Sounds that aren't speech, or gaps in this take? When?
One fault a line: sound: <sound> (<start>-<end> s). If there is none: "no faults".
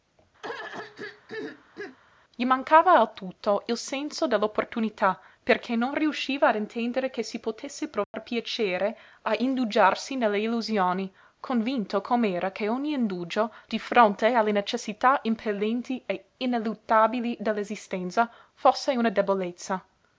sound: throat clearing (0.4-2.0 s)
sound: dropout (8.0-8.1 s)